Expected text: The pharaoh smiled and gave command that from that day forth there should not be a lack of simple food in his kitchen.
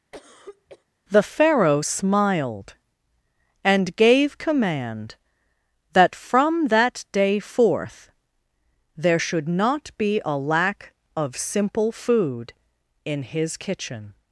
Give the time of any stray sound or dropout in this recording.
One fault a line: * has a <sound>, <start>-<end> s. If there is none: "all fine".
* has a cough, 0.1-0.8 s